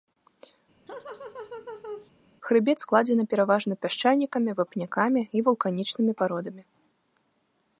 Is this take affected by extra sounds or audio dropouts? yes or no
yes